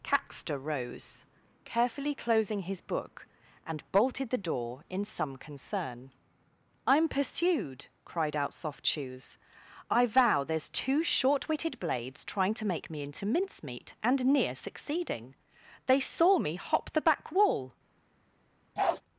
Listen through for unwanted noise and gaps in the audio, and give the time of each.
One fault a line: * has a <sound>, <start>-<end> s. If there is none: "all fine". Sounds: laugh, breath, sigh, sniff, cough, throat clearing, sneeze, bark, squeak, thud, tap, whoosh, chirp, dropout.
* has a bark, 18.8-19.0 s